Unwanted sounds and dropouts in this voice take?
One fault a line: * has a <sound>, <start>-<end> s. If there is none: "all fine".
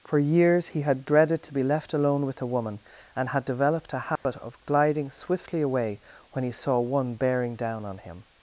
* has a dropout, 4.2-4.3 s